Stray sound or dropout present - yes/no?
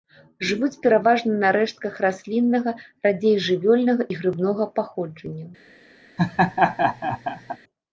yes